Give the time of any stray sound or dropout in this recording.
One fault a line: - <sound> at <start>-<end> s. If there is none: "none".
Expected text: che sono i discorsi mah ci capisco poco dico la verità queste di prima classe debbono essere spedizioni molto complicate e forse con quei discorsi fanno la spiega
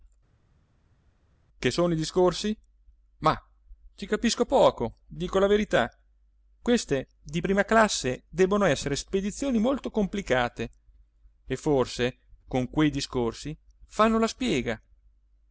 none